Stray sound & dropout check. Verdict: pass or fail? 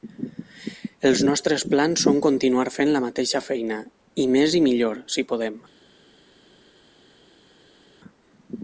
pass